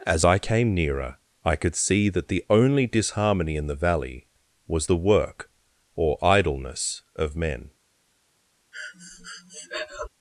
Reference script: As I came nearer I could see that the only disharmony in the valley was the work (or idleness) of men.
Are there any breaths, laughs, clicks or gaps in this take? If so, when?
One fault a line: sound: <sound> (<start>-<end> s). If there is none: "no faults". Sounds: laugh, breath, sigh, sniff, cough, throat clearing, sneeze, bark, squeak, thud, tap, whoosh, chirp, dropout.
sound: breath (8.7-10.1 s)